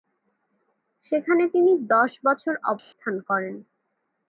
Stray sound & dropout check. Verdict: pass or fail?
fail